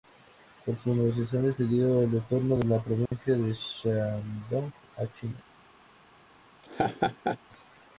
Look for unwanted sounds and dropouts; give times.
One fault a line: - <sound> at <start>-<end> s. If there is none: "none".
- dropout at 3.1-3.1 s
- laugh at 6.6-7.4 s